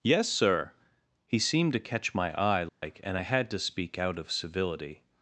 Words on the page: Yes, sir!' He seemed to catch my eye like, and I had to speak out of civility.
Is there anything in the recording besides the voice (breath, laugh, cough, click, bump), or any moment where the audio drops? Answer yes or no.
yes